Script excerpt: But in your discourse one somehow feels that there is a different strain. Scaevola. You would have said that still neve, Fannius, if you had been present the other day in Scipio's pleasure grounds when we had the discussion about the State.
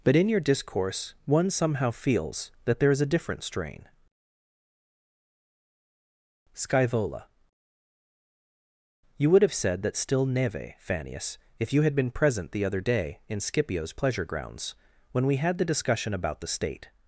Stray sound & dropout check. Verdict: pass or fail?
pass